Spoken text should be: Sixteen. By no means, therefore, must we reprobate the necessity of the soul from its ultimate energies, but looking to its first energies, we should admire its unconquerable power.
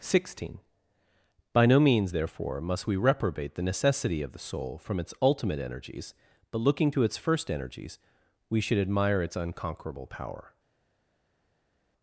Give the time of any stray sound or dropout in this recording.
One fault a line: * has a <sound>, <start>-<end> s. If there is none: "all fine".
all fine